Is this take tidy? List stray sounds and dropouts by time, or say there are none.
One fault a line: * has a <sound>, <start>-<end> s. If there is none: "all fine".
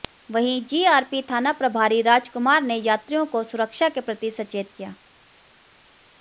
all fine